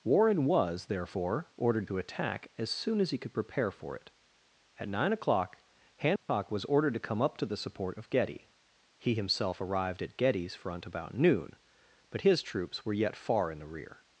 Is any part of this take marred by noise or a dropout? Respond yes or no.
yes